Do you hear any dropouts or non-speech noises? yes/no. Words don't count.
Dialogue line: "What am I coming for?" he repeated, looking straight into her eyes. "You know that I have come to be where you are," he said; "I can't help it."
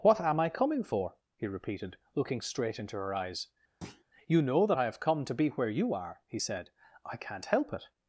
yes